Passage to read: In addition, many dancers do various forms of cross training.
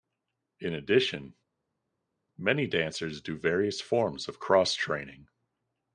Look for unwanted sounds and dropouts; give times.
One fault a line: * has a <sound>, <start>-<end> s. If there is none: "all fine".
all fine